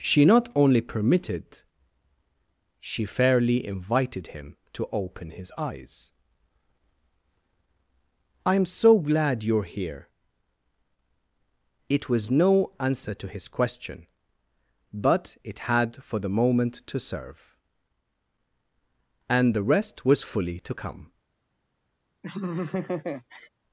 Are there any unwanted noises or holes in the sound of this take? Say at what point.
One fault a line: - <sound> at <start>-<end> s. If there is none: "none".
- laugh at 22.2-23.5 s